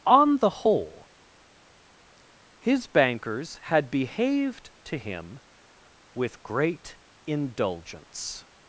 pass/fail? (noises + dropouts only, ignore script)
pass